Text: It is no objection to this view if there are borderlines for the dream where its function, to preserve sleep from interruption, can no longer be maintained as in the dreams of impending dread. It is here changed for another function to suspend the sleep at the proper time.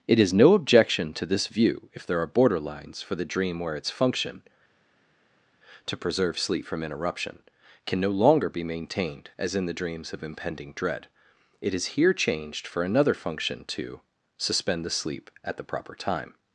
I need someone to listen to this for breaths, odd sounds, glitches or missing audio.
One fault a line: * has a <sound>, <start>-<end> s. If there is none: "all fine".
all fine